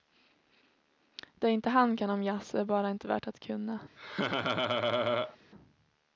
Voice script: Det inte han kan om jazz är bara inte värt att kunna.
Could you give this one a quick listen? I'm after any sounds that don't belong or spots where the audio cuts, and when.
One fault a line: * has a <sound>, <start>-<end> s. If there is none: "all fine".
* has a laugh, 4.0-5.4 s